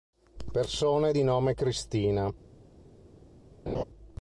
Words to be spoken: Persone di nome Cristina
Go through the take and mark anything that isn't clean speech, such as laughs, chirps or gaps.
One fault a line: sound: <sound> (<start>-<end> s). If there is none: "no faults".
sound: laugh (3.7-3.8 s)